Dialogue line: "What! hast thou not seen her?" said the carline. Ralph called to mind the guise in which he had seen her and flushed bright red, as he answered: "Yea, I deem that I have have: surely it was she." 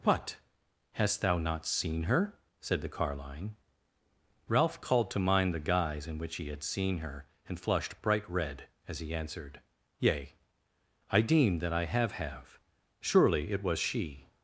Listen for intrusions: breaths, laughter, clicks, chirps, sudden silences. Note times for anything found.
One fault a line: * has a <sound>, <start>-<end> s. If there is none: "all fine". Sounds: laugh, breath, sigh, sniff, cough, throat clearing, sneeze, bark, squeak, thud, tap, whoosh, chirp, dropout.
all fine